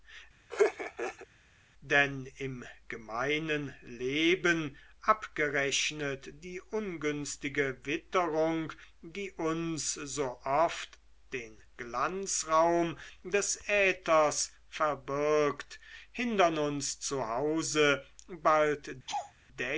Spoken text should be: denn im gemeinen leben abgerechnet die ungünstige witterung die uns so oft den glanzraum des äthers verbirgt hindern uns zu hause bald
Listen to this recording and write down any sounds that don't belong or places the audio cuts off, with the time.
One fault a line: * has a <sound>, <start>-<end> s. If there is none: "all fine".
* has a laugh, 0.5-1.3 s
* has a laugh, 19.1-19.3 s